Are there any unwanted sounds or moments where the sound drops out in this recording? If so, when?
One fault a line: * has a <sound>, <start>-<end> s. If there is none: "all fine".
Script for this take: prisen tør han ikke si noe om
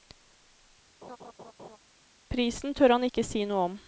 * has a laugh, 1.0-1.8 s